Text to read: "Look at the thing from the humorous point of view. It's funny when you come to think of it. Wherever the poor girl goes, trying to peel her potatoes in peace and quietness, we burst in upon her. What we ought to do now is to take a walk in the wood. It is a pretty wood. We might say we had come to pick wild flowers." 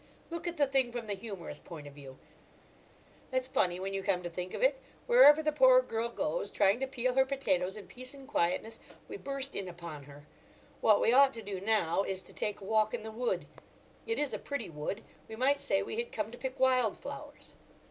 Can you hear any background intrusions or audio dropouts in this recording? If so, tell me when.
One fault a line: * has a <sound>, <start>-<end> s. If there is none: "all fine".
all fine